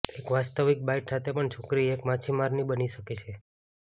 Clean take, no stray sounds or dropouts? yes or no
yes